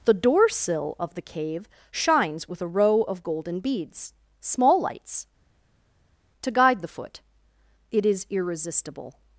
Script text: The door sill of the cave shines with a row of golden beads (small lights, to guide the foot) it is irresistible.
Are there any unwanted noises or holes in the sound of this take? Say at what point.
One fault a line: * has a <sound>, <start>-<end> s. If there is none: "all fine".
all fine